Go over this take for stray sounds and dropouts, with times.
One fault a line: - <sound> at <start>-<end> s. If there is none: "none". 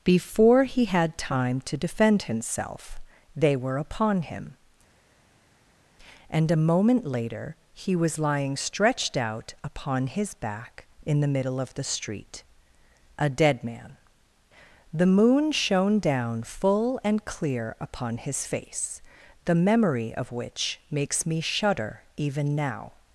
none